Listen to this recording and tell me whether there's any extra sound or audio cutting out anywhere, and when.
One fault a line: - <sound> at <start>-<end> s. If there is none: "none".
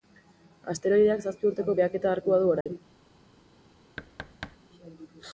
- dropout at 2.6-2.7 s
- thud at 4.0-4.6 s